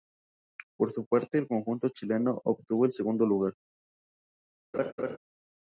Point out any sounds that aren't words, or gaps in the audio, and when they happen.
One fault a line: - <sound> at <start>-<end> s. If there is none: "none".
- laugh at 4.7-5.2 s